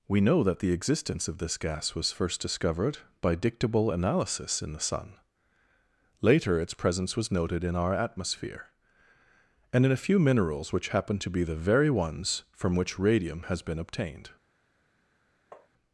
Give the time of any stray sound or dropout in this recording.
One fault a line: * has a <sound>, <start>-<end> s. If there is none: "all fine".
* has a tap, 15.5-15.7 s